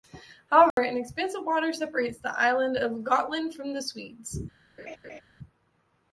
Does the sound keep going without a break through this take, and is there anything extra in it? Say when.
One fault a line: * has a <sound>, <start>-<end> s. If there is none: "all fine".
* has a dropout, 0.7-0.8 s
* has a laugh, 4.8-5.2 s